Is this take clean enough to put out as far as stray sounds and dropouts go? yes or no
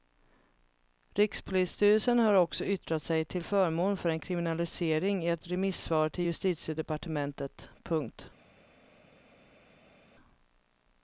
yes